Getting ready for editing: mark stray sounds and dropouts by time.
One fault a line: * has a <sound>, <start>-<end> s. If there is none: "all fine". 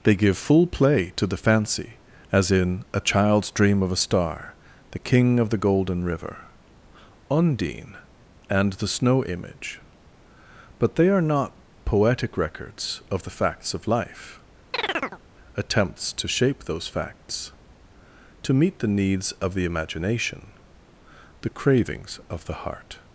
* has a chirp, 14.7-15.2 s